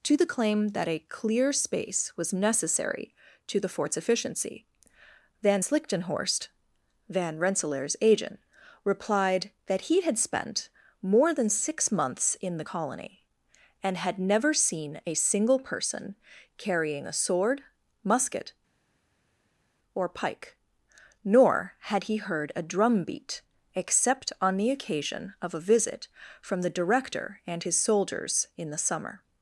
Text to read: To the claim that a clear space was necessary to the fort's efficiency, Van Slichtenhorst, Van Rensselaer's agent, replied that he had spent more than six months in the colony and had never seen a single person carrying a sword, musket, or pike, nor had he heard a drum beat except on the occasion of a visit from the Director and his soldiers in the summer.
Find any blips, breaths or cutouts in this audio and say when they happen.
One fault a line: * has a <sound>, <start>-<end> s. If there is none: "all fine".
all fine